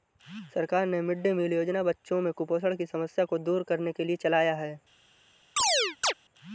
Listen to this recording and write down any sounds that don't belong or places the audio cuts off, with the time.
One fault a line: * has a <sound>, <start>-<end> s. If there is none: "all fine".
* has a chirp, 5.6-6.1 s